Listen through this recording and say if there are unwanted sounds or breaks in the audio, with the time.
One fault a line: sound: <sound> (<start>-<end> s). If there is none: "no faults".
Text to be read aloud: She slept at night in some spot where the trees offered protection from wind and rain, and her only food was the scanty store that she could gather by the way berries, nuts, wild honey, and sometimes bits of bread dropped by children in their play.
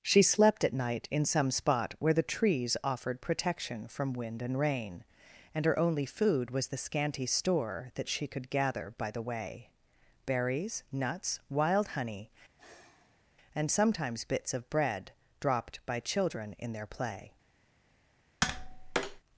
sound: sigh (12.6-13.3 s)
sound: tap (18.4-19.2 s)